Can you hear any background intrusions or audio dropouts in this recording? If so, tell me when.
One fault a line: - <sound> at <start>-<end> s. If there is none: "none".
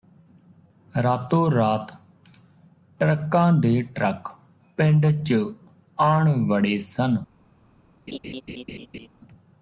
- laugh at 8.1-9.1 s